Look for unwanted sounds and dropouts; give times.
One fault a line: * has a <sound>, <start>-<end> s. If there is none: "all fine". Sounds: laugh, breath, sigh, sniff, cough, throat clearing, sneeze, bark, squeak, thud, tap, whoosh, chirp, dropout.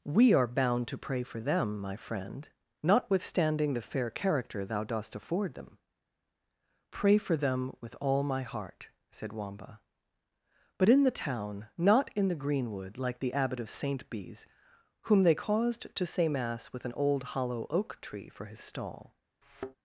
* has a thud, 19.4-19.8 s